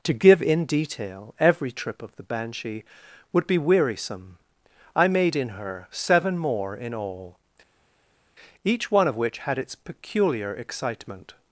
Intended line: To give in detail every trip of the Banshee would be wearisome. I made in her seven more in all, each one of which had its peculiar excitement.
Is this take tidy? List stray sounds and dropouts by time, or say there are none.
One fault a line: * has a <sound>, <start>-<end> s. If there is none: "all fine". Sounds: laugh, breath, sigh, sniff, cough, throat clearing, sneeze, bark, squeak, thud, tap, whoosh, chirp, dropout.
all fine